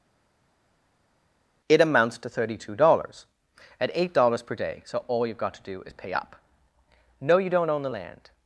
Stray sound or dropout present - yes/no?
no